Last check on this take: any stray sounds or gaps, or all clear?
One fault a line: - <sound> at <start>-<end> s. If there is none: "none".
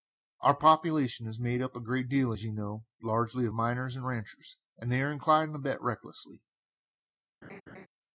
- laugh at 7.4-7.9 s